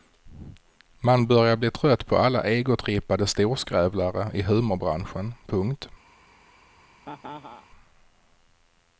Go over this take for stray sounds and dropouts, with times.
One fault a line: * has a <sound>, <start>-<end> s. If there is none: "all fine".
* has a laugh, 7.0-7.7 s